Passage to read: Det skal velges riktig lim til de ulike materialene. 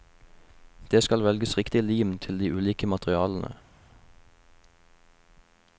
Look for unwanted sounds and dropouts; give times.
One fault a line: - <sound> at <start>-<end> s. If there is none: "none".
none